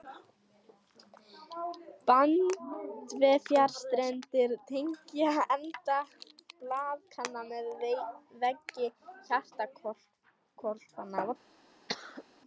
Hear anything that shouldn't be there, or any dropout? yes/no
yes